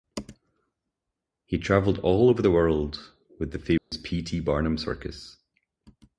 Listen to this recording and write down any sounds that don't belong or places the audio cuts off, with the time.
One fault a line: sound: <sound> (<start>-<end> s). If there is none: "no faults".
sound: dropout (3.8-3.9 s)